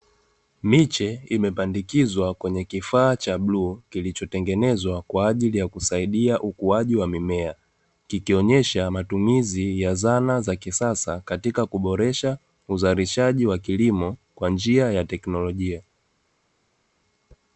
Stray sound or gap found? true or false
false